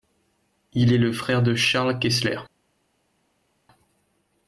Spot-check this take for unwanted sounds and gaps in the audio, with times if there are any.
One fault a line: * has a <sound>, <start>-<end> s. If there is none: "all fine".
all fine